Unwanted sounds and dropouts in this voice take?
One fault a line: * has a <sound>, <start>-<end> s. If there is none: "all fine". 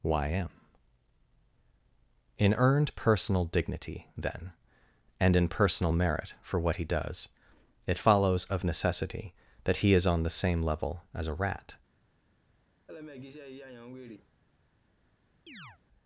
* has a laugh, 12.9-14.3 s
* has a chirp, 15.5-15.8 s